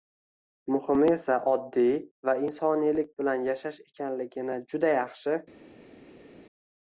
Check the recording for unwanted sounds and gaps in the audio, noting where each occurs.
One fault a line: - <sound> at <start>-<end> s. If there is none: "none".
none